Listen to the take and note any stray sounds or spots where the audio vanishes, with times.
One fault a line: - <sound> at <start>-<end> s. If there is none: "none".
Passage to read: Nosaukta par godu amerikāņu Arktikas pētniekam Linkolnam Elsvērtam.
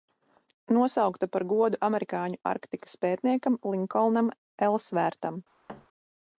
- thud at 5.7-5.9 s